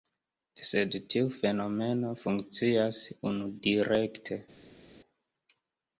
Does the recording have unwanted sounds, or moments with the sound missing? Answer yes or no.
no